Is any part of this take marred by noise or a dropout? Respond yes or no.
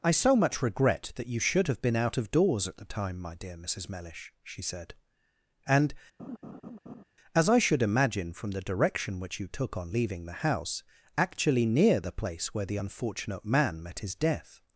yes